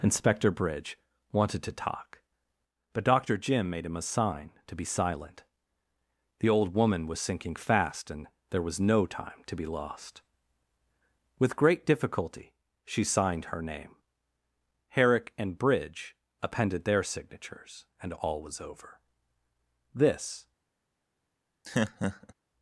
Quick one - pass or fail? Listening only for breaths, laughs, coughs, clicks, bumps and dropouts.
fail